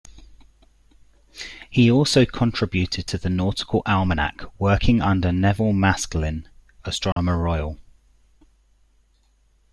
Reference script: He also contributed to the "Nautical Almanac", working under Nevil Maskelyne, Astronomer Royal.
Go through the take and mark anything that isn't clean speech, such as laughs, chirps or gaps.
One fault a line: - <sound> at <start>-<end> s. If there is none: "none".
- dropout at 7.1-7.2 s